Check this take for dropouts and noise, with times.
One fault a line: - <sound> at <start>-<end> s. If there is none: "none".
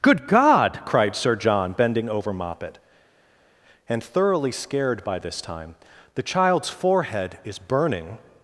none